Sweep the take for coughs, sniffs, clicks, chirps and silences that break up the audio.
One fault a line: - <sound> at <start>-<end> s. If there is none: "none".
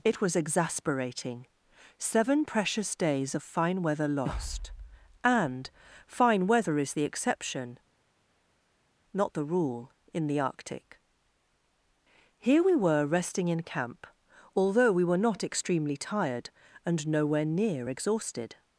none